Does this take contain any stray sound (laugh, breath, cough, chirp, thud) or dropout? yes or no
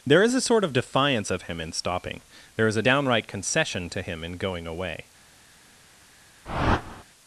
yes